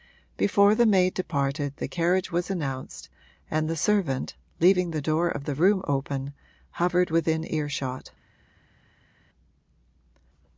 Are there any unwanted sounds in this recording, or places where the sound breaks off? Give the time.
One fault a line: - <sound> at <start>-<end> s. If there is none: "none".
none